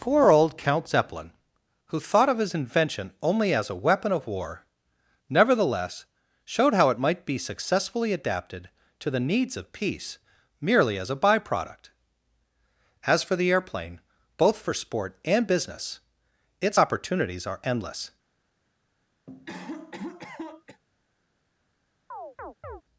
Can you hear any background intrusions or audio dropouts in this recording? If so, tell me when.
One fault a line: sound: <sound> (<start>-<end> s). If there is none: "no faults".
sound: cough (19.3-20.8 s)
sound: chirp (22.1-22.8 s)